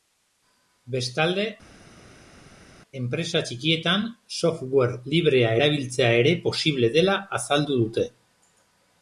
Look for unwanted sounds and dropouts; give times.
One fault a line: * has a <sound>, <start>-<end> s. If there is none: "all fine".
all fine